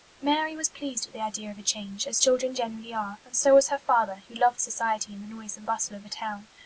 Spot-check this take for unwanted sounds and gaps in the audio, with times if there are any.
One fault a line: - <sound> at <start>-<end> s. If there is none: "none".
none